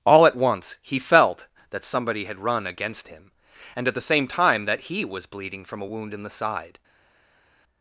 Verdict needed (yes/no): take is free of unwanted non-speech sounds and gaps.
yes